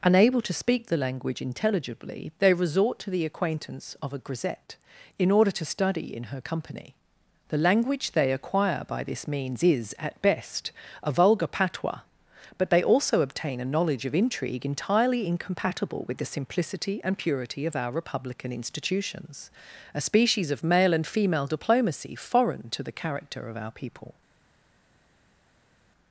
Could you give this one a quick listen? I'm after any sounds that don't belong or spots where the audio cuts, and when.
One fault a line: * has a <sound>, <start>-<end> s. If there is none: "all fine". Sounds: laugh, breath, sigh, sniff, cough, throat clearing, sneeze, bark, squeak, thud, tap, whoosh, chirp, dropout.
all fine